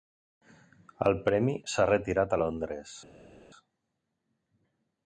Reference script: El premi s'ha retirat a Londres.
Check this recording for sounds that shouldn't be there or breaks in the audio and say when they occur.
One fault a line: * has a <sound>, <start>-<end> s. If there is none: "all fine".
all fine